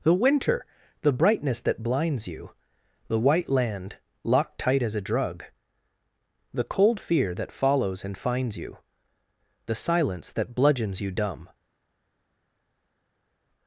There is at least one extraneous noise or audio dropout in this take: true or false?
false